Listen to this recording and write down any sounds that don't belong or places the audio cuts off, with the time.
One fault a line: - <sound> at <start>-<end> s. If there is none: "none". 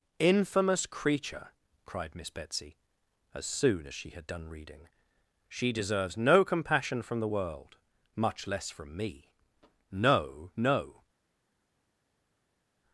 none